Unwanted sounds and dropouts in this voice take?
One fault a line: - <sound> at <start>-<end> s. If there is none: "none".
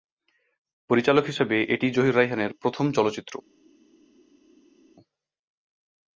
none